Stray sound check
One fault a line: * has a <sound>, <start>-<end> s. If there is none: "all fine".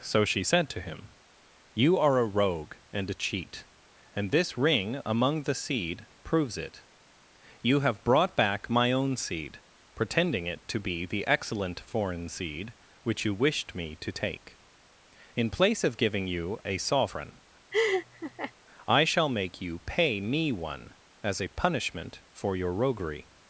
* has a laugh, 17.7-18.5 s